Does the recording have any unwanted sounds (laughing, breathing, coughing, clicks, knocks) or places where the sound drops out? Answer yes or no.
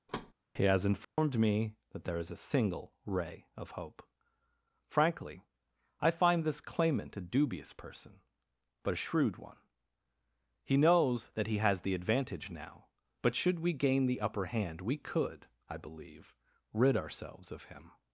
yes